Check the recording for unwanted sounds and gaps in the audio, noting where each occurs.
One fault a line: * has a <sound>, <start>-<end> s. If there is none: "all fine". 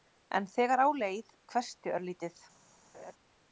* has a laugh, 2.9-3.1 s